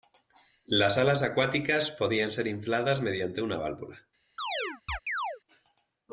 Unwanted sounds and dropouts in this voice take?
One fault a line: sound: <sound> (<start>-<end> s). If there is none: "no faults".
sound: chirp (4.4-5.4 s)